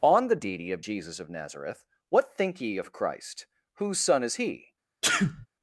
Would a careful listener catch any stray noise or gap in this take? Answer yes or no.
yes